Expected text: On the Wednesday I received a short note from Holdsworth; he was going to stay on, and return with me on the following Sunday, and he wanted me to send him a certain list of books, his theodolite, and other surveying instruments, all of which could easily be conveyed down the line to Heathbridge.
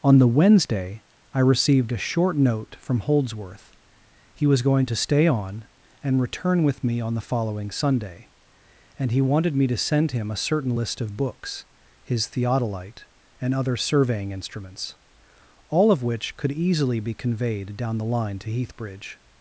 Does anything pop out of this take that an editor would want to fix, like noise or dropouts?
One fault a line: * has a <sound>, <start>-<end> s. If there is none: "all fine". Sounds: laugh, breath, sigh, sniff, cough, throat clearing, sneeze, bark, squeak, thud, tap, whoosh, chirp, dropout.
all fine